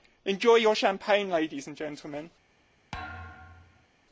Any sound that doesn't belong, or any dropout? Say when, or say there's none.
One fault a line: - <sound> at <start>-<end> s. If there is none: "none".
- thud at 2.9-3.9 s